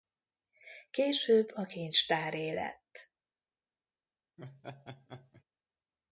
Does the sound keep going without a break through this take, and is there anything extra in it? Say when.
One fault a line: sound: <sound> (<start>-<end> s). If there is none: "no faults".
sound: laugh (4.4-5.4 s)